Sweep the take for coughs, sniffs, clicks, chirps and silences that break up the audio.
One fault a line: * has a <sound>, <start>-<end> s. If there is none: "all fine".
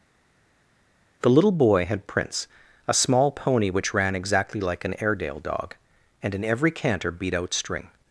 all fine